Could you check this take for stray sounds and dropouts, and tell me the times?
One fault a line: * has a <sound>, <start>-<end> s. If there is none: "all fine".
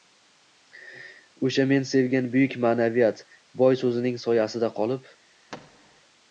* has a thud, 5.5-6.0 s